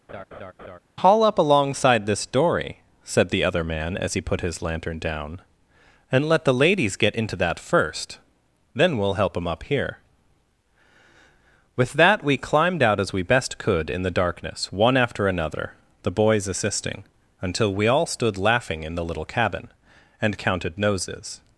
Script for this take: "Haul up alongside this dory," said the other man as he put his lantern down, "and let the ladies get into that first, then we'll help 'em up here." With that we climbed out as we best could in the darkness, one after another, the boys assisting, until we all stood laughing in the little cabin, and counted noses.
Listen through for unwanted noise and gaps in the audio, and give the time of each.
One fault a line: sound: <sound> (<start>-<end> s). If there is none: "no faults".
sound: laugh (0.1-0.8 s)